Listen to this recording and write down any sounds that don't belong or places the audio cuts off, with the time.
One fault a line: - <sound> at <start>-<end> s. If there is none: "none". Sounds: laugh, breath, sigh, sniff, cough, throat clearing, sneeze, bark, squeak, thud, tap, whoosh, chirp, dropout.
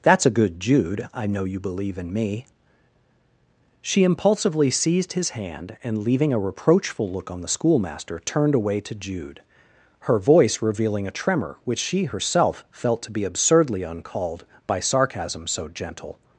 none